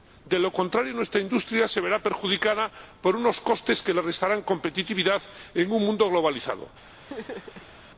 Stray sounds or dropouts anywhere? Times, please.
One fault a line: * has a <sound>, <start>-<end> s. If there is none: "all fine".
* has a laugh, 7.0-7.7 s